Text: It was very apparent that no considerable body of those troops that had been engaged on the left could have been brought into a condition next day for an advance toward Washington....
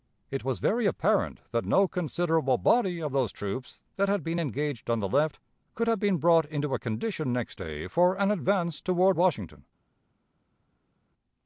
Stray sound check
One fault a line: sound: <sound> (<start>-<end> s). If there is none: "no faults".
no faults